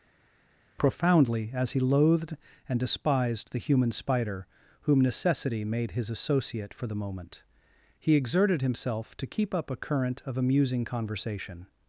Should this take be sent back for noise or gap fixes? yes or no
no